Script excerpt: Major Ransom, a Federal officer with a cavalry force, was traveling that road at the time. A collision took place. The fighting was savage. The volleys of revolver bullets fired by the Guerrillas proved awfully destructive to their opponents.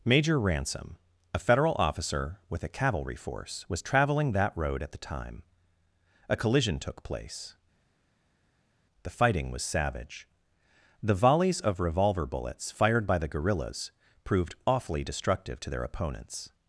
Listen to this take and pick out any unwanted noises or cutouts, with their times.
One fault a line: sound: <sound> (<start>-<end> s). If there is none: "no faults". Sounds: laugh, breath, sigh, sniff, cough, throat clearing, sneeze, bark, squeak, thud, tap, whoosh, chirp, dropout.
no faults